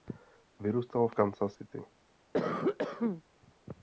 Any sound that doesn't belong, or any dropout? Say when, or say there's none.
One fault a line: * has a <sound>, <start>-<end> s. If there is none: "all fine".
* has a cough, 2.3-3.2 s